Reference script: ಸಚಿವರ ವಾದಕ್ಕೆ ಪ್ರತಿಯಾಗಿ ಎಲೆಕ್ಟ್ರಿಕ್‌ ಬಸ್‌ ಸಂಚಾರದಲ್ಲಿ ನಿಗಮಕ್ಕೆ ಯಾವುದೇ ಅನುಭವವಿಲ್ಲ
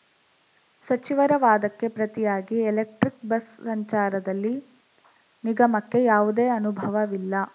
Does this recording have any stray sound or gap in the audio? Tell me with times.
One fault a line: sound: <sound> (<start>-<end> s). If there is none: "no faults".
no faults